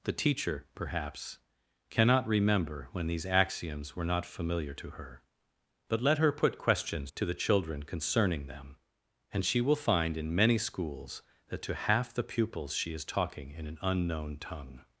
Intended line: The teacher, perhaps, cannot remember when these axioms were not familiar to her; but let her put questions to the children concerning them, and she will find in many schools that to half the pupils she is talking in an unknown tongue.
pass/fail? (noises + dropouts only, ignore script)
pass